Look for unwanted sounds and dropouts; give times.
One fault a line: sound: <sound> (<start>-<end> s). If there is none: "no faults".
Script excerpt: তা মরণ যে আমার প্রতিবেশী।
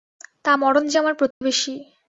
sound: dropout (1.3-1.4 s)